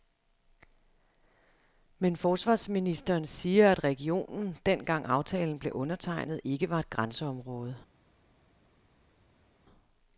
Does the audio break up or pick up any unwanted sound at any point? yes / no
no